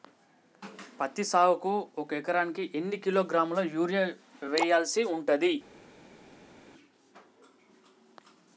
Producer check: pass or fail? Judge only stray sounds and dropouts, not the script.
pass